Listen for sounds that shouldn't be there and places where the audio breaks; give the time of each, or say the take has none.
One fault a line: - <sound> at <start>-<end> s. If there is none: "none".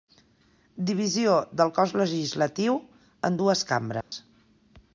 - dropout at 4.0-4.1 s